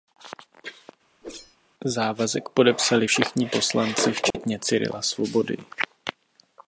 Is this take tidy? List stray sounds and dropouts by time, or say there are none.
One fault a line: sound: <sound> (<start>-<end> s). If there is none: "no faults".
sound: whoosh (1.2-1.6 s)
sound: dropout (4.3-4.3 s)